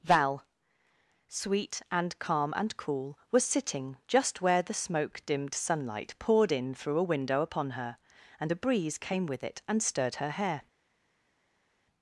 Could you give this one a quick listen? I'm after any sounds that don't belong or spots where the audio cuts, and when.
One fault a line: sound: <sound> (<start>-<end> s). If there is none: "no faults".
no faults